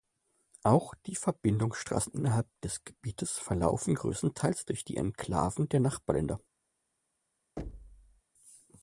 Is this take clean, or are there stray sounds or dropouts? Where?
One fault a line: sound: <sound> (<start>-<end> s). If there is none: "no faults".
sound: thud (7.6-8.2 s)